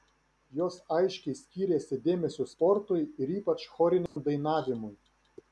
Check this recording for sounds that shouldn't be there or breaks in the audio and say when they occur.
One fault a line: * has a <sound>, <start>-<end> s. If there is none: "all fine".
* has a dropout, 4.1-4.2 s